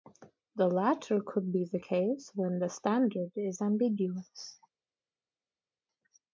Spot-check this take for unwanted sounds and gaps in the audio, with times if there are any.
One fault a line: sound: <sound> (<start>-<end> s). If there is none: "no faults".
no faults